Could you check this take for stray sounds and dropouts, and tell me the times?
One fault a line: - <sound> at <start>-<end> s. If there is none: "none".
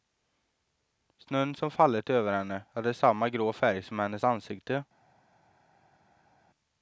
none